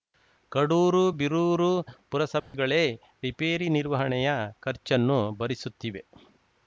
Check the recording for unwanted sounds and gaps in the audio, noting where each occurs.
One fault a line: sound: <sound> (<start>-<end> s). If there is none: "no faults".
sound: dropout (2.4-2.5 s)